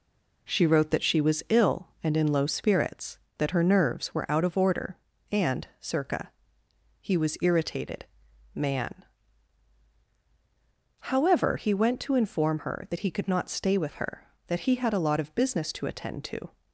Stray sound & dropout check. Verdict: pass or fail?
pass